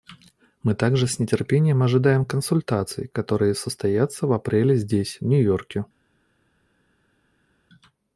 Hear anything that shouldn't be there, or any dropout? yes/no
no